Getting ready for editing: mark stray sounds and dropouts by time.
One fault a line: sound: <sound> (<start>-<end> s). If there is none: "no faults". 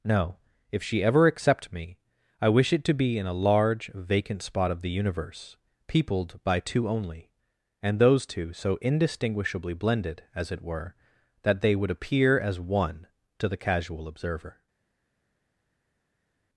no faults